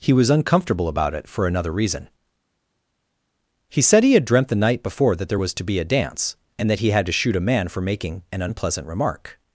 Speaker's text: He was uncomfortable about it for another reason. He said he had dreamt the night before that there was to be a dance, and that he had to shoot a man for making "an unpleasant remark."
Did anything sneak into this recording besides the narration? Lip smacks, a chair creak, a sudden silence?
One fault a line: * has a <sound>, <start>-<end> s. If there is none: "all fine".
all fine